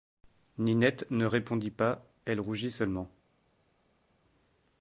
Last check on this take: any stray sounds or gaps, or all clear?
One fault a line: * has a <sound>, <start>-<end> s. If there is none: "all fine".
all fine